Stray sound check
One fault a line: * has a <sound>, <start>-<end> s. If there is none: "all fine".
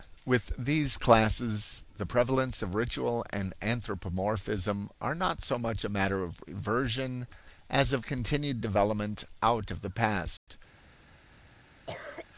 * has a dropout, 10.4-10.5 s
* has a cough, 11.9-12.3 s